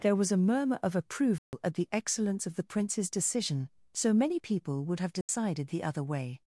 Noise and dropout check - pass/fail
fail